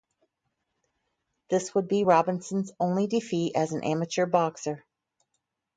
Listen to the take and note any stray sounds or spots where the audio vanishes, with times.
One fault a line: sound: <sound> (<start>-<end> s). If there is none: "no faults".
no faults